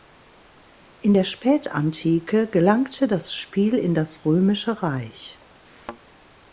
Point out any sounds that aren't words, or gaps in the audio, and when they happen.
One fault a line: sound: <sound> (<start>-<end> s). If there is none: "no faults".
sound: thud (5.6-6.0 s)